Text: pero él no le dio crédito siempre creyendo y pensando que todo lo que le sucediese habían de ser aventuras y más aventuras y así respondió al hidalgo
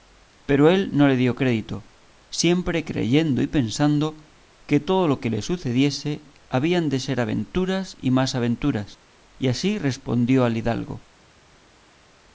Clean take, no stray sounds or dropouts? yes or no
yes